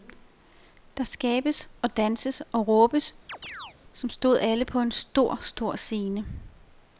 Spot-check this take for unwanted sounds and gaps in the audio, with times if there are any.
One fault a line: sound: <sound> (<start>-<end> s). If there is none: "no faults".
sound: chirp (3.3-3.8 s)